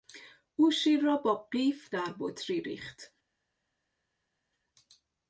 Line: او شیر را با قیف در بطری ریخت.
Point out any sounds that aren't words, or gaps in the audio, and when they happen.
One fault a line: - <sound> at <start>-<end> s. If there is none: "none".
none